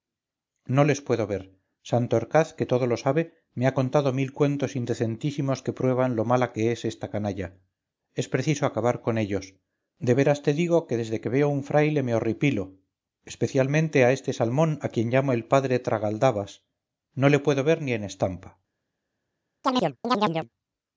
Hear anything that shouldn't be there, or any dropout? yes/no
yes